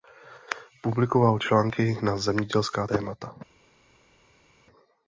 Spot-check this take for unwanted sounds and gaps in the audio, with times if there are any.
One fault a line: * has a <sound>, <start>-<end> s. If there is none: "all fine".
all fine